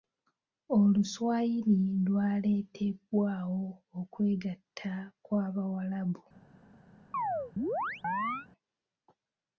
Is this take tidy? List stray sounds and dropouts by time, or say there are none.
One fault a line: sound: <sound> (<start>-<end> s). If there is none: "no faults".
sound: chirp (7.1-8.5 s)